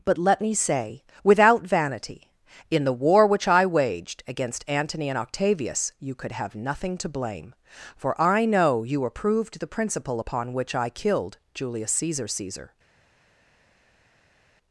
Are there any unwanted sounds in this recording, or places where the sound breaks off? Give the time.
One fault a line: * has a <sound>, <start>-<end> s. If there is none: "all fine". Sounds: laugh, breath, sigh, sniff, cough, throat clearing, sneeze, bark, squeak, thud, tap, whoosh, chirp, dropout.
all fine